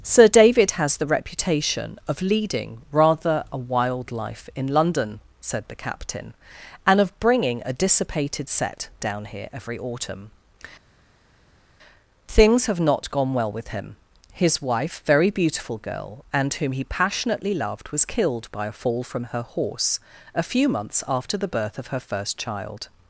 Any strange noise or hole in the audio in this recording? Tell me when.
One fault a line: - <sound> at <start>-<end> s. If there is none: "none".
none